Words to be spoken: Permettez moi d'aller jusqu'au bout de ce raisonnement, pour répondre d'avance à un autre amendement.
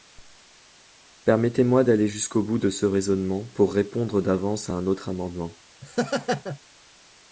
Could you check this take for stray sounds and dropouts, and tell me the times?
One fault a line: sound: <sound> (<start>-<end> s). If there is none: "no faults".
sound: laugh (5.8-6.6 s)